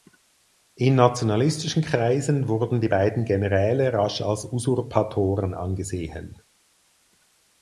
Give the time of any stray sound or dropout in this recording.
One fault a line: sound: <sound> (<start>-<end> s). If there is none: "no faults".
no faults